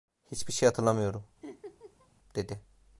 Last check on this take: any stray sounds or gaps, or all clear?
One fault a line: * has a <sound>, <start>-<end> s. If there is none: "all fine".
* has a laugh, 1.4-2.1 s